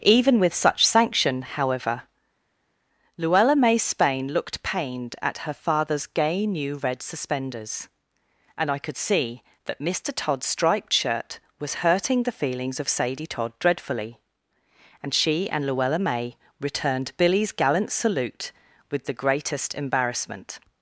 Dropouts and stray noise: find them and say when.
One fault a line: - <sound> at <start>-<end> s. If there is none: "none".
none